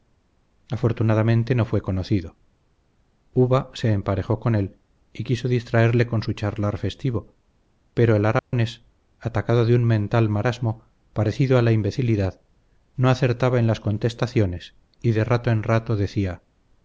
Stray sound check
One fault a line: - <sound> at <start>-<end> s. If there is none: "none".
- dropout at 8.4-8.5 s